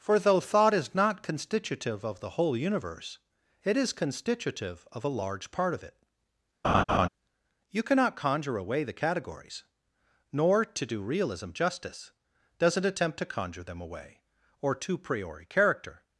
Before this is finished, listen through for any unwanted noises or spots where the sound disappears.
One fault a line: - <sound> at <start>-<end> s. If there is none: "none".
- laugh at 6.6-7.1 s